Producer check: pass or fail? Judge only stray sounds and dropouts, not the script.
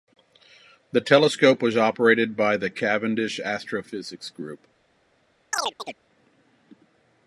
fail